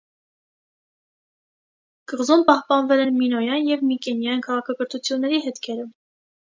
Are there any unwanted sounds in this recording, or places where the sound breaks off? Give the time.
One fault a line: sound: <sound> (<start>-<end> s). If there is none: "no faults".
no faults